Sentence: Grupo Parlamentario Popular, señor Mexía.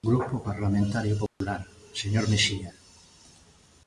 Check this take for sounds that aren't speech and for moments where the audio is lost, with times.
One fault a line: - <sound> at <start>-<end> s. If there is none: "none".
- dropout at 1.3-1.4 s